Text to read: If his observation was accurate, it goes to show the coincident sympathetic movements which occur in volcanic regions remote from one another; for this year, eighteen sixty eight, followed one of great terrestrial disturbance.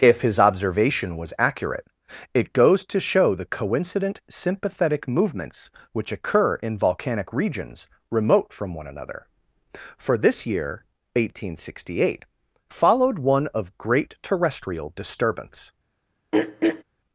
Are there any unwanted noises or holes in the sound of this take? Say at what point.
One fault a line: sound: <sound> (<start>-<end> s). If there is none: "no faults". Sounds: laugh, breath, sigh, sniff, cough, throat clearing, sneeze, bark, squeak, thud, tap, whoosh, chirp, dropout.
sound: throat clearing (16.3-16.8 s)